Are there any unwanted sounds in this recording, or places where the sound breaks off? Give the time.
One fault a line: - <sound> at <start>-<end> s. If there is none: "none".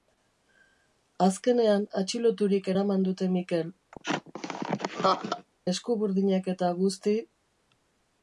- laugh at 3.9-5.5 s